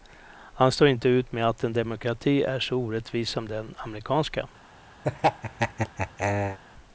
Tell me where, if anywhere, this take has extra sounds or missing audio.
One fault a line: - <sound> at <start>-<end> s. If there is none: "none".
- laugh at 5.0-6.6 s